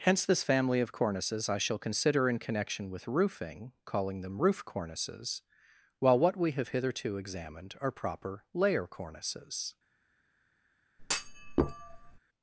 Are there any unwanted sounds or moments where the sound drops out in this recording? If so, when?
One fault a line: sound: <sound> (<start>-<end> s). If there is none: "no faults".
sound: thud (11.0-12.2 s)